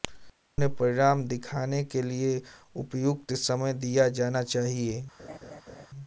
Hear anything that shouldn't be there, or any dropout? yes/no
yes